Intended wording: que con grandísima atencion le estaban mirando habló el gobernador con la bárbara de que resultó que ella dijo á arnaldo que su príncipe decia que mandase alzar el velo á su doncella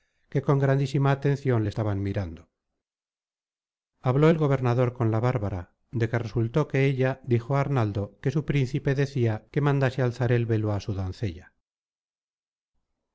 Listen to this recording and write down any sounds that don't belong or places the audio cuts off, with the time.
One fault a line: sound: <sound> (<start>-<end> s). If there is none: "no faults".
no faults